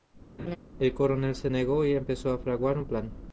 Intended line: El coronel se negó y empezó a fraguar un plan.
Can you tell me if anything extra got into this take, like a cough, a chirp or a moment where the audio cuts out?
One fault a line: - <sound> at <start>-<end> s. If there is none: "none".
- laugh at 0.4-0.6 s